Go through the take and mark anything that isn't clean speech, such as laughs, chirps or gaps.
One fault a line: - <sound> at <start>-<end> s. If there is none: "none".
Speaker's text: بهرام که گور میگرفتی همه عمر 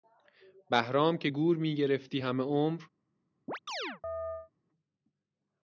- chirp at 3.5-4.5 s